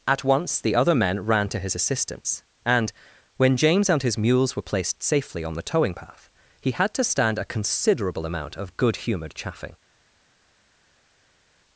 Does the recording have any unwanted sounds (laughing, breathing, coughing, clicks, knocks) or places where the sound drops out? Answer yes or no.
no